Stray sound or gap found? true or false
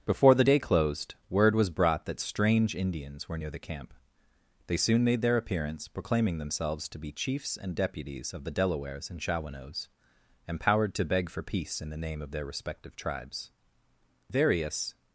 false